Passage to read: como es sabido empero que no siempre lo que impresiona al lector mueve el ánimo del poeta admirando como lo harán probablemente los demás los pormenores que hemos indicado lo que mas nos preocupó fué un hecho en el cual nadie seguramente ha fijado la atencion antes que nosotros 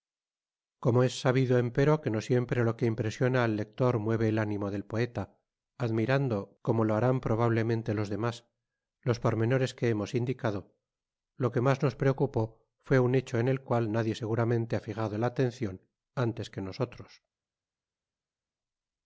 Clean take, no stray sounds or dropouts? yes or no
yes